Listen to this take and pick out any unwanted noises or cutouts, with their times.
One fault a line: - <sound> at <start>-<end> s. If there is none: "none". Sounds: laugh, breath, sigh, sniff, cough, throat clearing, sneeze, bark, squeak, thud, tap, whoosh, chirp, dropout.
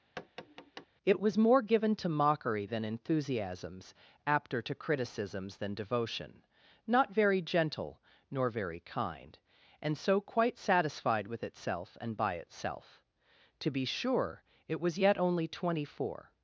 - tap at 0.2-0.9 s